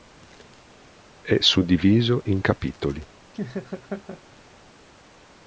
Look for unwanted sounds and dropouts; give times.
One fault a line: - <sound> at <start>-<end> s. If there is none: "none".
- laugh at 3.3-4.2 s